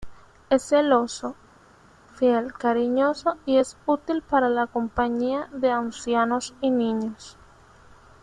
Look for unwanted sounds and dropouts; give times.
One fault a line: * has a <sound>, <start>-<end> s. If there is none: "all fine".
all fine